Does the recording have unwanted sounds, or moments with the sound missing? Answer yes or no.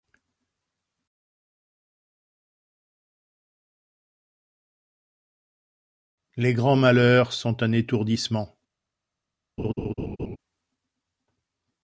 yes